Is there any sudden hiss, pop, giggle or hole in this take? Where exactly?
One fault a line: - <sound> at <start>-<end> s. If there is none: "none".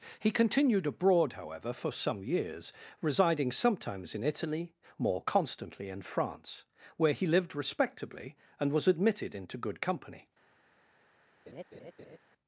- laugh at 11.5-12.2 s